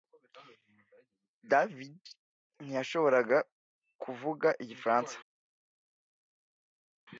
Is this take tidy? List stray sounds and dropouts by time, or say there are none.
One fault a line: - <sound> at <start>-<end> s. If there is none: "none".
none